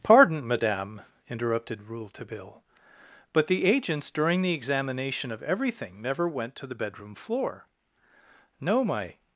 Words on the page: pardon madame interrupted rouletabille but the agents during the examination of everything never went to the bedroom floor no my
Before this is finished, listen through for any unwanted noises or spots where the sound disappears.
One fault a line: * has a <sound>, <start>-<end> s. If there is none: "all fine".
all fine